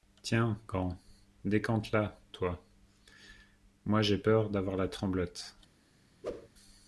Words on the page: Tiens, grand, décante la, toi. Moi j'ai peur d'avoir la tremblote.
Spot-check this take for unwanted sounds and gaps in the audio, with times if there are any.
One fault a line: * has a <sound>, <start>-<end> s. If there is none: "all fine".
* has a whoosh, 6.2-6.5 s